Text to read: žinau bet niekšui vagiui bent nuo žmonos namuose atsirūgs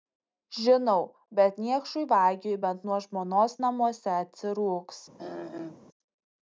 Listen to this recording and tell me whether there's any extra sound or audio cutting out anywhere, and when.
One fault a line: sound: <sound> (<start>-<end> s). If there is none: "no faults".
sound: throat clearing (5.2-5.9 s)